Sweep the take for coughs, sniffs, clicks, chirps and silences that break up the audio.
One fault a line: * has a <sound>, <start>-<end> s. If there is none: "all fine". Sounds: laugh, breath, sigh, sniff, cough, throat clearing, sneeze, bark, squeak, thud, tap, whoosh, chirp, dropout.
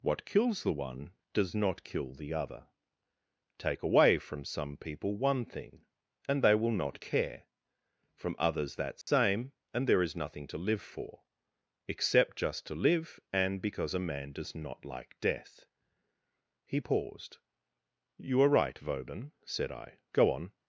* has a dropout, 9.0-9.1 s